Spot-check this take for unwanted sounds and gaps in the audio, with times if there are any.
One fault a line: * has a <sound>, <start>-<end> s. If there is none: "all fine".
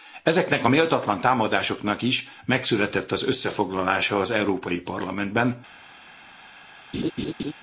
* has a laugh, 6.9-7.5 s